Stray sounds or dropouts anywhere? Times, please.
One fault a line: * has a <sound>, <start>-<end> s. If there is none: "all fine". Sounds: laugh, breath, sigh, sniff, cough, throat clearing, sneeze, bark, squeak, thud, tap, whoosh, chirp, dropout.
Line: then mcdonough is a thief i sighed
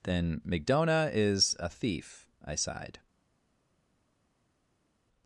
all fine